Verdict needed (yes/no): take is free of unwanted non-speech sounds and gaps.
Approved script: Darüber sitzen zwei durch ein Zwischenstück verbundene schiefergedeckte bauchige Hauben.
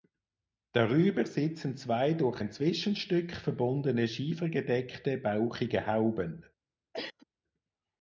no